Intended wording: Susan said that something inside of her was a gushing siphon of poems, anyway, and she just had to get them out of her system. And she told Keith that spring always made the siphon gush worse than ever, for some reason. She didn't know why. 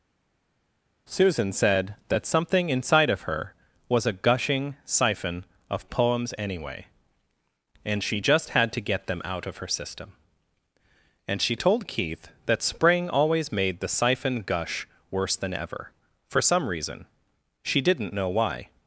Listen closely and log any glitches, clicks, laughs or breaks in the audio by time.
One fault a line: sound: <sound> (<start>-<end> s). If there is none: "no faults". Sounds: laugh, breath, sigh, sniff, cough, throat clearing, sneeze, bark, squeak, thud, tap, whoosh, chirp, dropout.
no faults